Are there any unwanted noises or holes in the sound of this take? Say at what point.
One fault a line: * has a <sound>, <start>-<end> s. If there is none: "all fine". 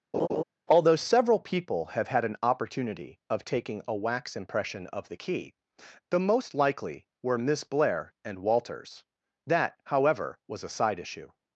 * has a laugh, 0.1-0.4 s